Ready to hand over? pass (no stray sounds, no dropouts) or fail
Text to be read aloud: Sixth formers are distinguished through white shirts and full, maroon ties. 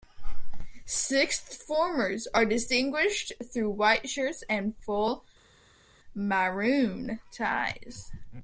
pass